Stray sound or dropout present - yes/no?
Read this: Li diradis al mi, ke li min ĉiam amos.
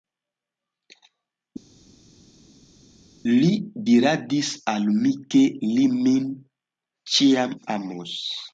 no